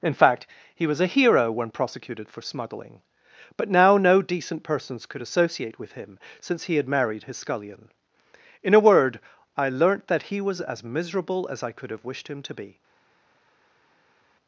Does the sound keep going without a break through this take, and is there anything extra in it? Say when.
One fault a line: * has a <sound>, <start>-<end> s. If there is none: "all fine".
all fine